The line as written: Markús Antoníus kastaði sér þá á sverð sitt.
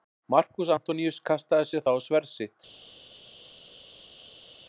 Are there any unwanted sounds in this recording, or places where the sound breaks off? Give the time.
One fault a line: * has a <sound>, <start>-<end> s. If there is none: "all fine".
all fine